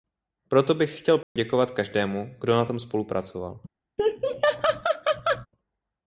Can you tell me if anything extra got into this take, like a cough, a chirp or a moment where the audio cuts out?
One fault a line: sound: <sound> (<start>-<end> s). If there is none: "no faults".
sound: dropout (1.2-1.4 s)
sound: laugh (4.0-5.5 s)